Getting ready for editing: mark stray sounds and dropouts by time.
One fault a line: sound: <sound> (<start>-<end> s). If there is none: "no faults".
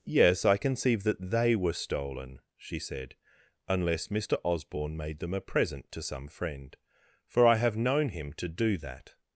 no faults